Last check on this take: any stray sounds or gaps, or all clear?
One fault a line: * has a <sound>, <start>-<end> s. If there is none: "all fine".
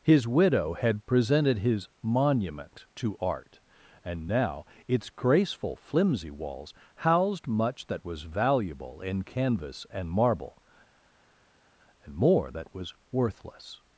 all fine